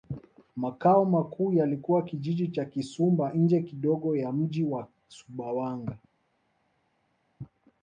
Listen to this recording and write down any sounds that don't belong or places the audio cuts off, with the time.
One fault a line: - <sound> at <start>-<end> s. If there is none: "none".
none